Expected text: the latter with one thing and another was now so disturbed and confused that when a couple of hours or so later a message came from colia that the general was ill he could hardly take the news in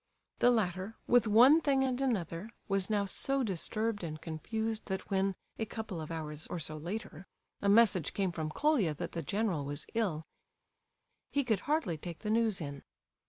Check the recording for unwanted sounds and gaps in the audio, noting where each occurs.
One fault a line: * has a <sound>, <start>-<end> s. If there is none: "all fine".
all fine